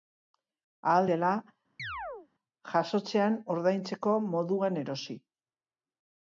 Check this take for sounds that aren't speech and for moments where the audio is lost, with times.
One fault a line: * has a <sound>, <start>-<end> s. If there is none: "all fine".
* has a chirp, 1.8-2.3 s